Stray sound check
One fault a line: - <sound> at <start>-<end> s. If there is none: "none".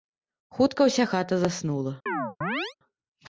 - chirp at 2.1-2.7 s